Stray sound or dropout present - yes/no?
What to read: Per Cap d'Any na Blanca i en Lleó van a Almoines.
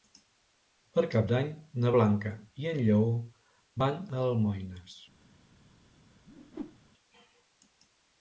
yes